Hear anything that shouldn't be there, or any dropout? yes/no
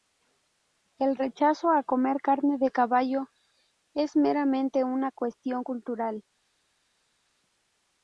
no